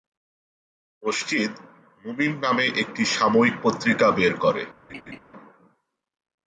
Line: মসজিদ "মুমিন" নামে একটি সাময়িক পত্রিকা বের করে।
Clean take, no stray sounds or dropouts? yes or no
no